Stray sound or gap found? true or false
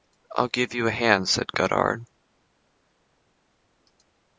false